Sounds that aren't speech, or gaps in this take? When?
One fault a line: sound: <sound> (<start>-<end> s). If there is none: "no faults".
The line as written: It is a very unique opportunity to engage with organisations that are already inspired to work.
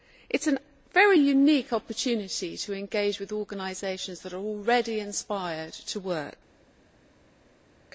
no faults